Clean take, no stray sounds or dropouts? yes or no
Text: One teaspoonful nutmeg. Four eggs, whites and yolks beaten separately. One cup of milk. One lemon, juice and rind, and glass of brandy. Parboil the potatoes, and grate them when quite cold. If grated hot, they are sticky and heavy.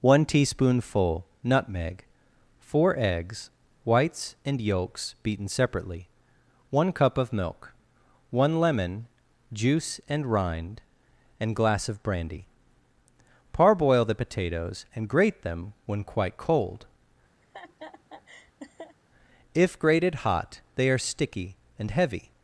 no